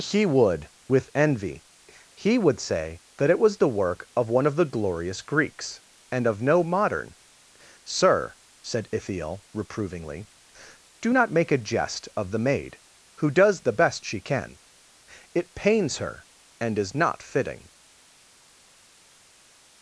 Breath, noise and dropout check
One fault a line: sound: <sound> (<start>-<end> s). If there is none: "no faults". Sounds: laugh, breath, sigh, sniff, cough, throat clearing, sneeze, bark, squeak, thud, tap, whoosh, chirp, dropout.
no faults